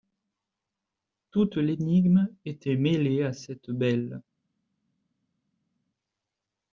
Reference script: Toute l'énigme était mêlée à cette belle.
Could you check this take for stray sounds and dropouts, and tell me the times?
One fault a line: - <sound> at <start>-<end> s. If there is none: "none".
none